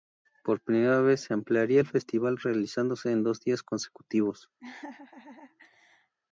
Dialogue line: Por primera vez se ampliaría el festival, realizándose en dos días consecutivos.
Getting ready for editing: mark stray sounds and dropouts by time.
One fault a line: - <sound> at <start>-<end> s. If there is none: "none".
- laugh at 4.6-6.1 s